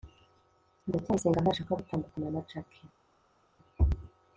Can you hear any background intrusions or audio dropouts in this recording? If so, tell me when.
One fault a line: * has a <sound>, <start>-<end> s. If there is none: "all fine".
all fine